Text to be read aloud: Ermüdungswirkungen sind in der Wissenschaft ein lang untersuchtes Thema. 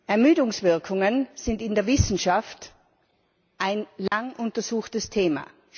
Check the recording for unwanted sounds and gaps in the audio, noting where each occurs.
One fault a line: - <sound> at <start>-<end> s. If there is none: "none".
- dropout at 4.1-4.1 s